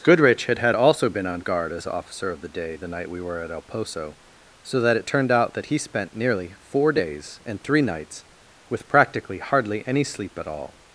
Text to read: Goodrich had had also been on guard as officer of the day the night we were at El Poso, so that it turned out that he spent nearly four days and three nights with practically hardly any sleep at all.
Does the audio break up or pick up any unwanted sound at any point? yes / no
no